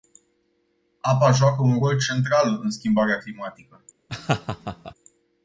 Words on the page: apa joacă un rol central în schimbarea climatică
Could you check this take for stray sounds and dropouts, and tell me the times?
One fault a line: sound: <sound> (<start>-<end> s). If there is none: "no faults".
sound: laugh (4.1-4.9 s)